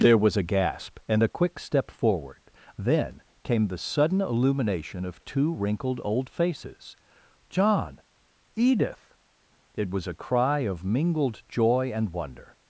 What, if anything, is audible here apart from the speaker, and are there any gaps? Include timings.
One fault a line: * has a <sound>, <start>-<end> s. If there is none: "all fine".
all fine